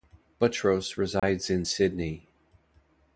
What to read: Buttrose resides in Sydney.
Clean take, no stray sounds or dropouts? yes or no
no